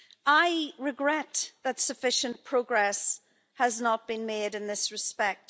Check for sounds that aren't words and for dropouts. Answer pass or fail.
pass